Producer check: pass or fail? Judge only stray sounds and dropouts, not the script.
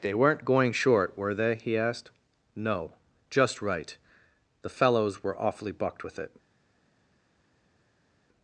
pass